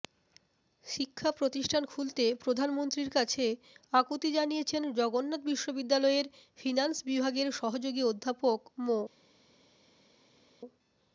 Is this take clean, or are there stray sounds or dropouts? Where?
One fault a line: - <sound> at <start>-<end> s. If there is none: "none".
none